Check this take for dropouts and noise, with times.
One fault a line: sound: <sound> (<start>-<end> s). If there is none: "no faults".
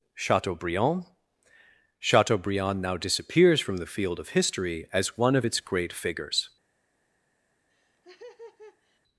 sound: laugh (7.7-9.0 s)